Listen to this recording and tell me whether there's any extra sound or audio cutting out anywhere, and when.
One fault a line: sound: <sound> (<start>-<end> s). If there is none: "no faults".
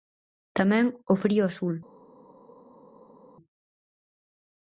no faults